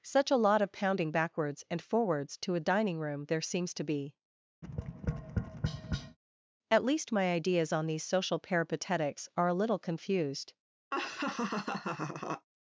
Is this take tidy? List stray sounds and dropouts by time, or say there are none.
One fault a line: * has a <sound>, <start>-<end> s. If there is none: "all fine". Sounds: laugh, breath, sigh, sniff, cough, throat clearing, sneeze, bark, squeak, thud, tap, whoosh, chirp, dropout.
* has a tap, 4.6-6.2 s
* has a laugh, 10.9-12.5 s